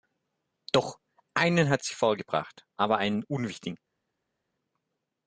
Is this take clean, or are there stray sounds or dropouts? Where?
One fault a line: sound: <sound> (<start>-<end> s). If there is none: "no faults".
no faults